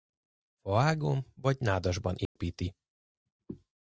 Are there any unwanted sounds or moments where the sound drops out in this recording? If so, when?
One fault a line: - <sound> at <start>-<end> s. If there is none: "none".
- dropout at 2.3-2.4 s